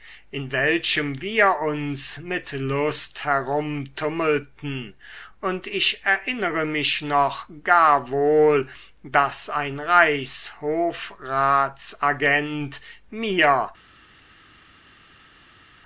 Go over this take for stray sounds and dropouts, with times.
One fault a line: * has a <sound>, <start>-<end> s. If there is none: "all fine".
all fine